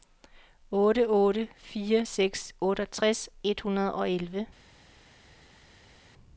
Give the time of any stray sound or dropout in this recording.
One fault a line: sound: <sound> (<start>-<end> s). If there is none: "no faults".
no faults